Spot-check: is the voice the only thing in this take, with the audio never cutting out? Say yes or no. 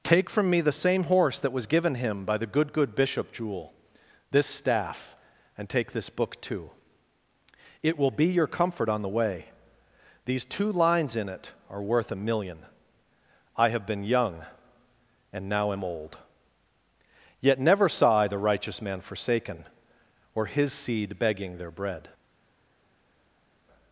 yes